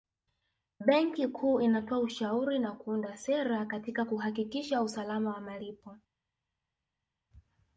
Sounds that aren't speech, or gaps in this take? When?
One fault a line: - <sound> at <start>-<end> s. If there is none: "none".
none